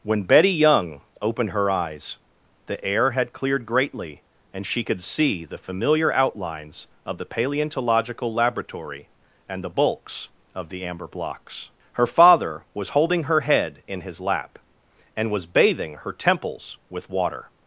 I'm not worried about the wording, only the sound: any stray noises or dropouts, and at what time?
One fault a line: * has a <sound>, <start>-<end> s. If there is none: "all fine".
all fine